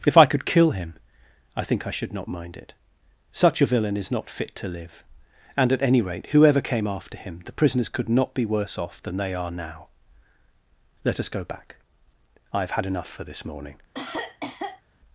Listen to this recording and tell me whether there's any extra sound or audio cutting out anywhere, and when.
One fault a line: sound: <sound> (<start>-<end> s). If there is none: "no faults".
sound: cough (13.9-14.8 s)